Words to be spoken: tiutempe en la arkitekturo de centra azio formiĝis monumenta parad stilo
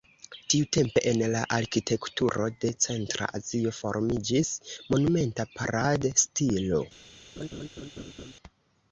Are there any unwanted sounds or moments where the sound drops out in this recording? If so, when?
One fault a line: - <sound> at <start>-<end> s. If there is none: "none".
- laugh at 7.4-8.3 s